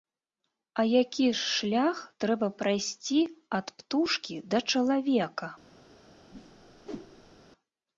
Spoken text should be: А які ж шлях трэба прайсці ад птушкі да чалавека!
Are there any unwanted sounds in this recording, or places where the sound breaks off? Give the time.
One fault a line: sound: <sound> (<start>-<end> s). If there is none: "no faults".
sound: whoosh (6.3-7.4 s)